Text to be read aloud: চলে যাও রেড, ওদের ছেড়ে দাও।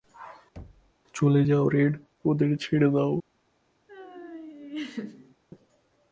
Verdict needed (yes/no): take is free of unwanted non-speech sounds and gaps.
no